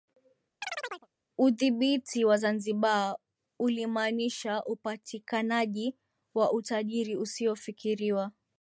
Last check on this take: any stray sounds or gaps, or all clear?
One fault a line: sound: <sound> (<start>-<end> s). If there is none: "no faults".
sound: chirp (0.6-1.1 s)